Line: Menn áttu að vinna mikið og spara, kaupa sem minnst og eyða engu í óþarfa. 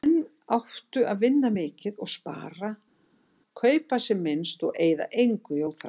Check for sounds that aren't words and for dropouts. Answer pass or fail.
pass